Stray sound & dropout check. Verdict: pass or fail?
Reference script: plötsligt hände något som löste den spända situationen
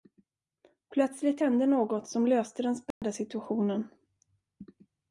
fail